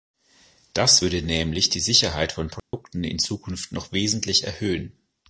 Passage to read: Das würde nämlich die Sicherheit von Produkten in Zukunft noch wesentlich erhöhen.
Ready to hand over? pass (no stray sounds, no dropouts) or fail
fail